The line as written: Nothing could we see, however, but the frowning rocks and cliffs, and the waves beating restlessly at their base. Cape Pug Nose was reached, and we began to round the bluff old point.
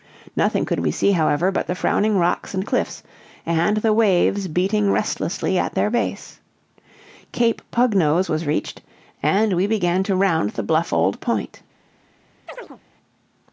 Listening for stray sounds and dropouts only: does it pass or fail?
fail